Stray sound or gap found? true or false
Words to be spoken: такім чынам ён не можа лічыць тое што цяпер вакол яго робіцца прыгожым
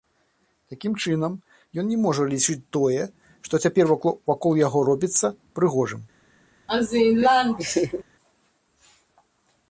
true